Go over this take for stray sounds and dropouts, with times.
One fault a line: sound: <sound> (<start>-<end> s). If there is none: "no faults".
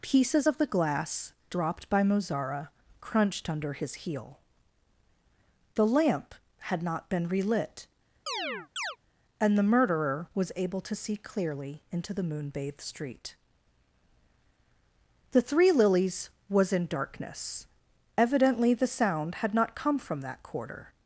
sound: chirp (8.3-9.0 s)